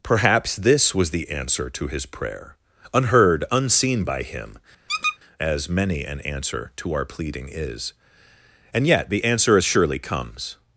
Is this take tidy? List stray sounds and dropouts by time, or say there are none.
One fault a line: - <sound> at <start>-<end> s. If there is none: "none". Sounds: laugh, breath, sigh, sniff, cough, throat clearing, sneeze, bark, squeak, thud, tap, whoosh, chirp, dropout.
- squeak at 4.9-5.2 s